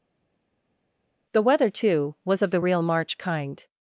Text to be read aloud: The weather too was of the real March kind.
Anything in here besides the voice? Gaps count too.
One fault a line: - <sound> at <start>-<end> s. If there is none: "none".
none